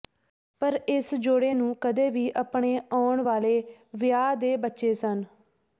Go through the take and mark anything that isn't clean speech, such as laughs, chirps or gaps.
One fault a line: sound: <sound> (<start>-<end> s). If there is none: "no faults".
no faults